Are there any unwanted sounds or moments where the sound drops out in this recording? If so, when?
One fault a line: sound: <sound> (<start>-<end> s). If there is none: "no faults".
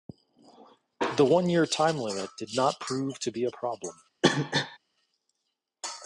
sound: cough (4.2-4.8 s)